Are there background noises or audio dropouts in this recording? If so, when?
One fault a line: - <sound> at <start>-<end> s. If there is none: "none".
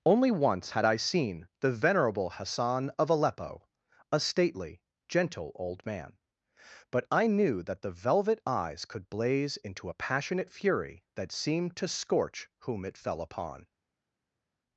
none